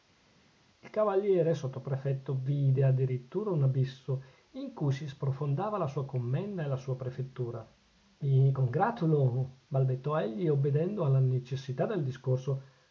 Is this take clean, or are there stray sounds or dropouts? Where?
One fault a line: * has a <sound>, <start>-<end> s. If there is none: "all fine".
all fine